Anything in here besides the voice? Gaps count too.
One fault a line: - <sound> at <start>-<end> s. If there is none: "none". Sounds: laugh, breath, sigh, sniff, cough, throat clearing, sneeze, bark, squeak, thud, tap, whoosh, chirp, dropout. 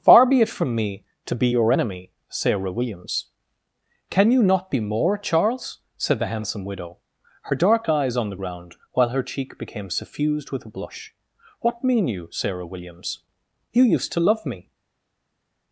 none